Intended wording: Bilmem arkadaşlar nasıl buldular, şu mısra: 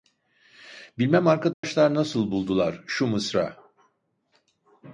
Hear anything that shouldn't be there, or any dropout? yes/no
yes